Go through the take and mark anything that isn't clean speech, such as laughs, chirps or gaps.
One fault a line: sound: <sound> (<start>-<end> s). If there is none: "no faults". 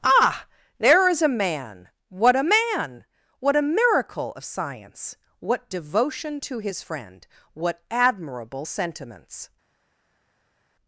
no faults